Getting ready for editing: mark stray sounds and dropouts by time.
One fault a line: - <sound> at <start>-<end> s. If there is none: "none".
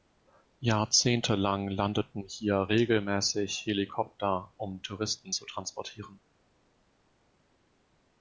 none